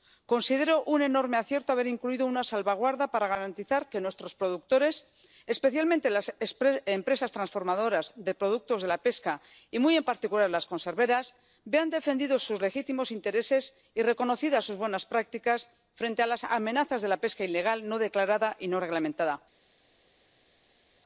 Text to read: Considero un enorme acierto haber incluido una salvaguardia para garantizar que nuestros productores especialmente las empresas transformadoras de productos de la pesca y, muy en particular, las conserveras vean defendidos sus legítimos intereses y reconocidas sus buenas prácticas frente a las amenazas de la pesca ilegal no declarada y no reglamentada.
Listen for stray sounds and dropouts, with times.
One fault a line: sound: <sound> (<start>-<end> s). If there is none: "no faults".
no faults